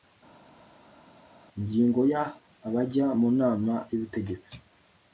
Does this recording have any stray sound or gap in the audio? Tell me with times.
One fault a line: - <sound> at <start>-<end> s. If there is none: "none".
none